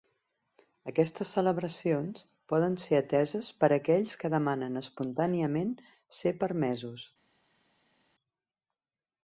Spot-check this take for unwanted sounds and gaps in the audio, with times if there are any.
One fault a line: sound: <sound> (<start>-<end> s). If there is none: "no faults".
no faults